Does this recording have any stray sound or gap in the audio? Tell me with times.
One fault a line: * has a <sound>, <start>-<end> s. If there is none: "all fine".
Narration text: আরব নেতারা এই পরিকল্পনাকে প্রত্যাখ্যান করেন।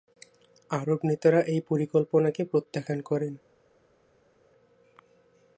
all fine